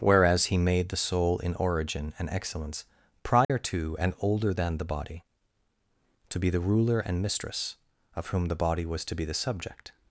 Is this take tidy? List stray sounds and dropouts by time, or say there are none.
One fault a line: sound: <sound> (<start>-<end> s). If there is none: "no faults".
sound: dropout (3.4-3.5 s)